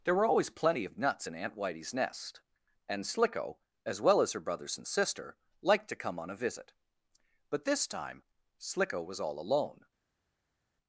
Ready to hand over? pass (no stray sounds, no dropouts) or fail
pass